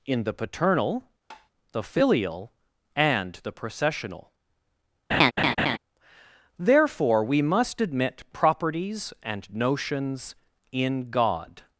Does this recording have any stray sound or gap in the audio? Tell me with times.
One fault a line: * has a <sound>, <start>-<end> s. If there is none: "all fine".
* has a tap, 1.3-1.5 s
* has a laugh, 5.1-5.8 s